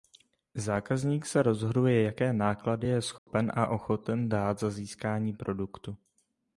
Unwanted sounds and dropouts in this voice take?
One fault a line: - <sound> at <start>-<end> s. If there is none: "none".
- dropout at 3.2-3.3 s